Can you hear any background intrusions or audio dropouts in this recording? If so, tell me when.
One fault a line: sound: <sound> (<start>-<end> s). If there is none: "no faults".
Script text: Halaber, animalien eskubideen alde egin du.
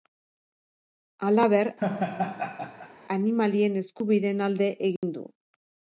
sound: laugh (1.8-2.9 s)
sound: dropout (5.0-5.0 s)